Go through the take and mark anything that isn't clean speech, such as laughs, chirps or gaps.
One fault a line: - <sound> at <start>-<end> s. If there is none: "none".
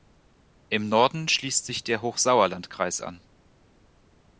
none